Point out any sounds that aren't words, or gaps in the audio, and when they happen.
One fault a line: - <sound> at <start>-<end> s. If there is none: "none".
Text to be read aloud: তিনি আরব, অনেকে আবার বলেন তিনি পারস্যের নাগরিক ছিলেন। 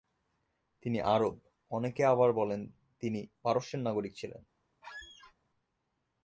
- squeak at 4.8-5.3 s